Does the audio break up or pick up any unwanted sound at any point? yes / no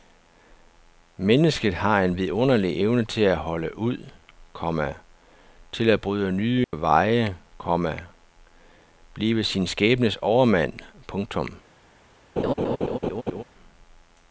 yes